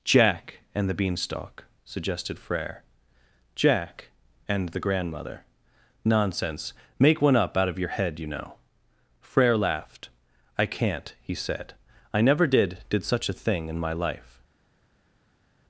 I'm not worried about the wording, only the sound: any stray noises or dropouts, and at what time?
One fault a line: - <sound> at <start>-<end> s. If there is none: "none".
none